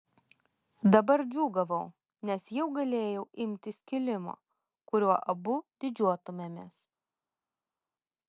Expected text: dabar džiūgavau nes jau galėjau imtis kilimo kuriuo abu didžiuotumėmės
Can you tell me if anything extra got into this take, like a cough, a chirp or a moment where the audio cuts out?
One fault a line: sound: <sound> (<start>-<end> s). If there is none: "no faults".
no faults